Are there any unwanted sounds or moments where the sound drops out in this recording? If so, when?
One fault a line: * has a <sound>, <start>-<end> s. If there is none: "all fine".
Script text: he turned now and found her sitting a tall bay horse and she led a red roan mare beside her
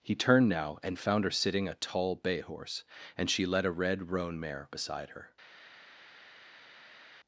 all fine